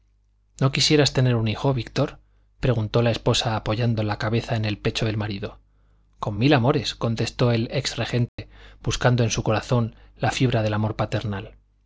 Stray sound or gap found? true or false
true